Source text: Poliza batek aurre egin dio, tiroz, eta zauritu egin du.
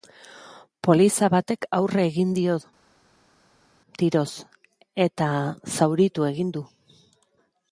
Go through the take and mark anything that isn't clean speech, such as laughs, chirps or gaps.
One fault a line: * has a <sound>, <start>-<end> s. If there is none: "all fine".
all fine